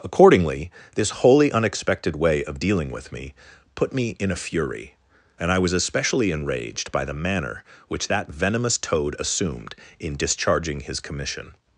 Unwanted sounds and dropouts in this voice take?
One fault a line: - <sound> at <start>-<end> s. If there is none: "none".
none